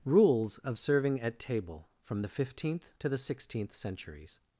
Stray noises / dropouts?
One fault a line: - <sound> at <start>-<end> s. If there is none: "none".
none